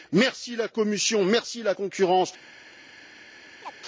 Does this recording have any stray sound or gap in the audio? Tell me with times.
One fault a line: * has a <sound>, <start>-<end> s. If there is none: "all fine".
* has a chirp, 3.6-3.8 s